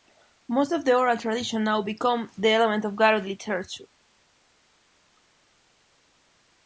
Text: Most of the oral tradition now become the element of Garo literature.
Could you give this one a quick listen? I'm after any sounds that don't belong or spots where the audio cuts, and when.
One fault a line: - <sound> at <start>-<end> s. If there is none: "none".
none